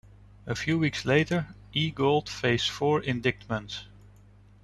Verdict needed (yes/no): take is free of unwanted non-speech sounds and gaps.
yes